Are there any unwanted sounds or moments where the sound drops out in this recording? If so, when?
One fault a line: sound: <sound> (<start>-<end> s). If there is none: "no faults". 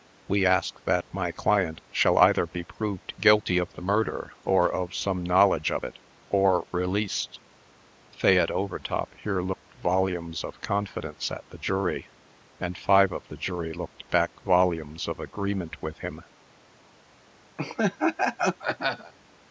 sound: laugh (17.6-19.1 s)